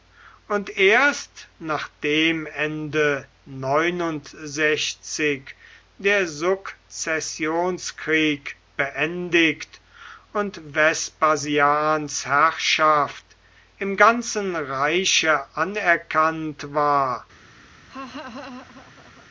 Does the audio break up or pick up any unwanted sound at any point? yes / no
yes